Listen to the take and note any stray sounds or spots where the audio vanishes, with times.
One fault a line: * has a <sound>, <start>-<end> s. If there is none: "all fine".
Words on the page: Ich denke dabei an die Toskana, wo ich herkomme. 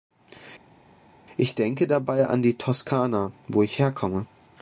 all fine